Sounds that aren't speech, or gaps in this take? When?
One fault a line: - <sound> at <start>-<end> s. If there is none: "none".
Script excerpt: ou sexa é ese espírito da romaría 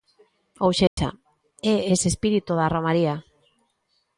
- dropout at 0.9-1.0 s